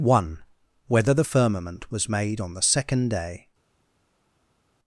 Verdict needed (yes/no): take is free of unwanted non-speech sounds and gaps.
yes